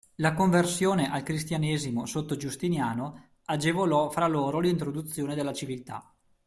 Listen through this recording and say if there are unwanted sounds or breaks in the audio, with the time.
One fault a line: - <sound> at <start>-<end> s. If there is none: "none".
none